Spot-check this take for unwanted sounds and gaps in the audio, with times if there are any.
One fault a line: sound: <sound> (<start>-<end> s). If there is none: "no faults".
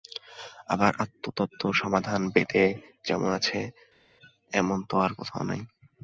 no faults